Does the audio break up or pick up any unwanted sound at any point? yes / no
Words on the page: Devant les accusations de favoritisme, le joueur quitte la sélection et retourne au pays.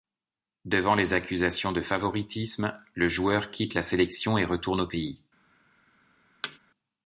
yes